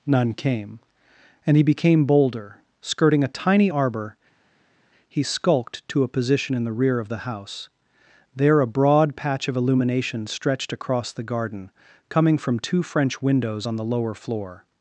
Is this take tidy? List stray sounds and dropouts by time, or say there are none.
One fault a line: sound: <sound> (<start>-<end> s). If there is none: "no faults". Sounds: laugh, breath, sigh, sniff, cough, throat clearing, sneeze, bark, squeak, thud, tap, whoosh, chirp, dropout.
no faults